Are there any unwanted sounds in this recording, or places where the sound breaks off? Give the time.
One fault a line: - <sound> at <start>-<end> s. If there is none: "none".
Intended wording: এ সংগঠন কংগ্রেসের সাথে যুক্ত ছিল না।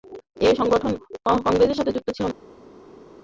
none